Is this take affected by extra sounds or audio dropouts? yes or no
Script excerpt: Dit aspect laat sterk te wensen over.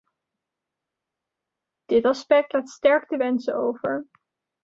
no